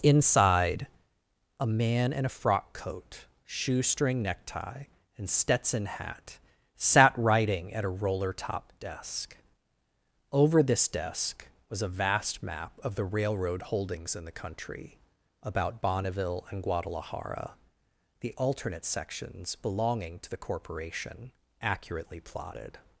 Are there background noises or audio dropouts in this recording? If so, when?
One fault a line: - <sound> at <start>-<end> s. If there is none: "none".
none